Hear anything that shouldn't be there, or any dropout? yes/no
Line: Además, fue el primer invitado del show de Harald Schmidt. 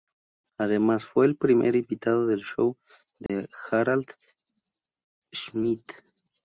yes